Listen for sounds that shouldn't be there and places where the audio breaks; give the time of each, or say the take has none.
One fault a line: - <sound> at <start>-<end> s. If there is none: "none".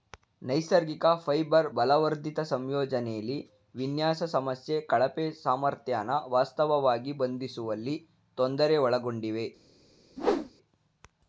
- whoosh at 10.2-10.5 s